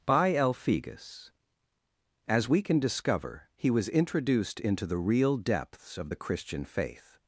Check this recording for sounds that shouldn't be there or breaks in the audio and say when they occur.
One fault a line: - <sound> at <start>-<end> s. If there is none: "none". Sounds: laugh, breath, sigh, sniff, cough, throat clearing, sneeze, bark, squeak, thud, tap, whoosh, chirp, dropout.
none